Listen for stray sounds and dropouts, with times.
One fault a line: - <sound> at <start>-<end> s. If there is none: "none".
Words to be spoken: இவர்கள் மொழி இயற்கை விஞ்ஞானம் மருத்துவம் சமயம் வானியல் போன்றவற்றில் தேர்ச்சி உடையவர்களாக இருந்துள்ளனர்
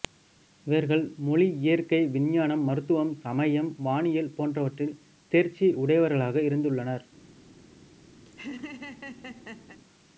- laugh at 8.3-9.8 s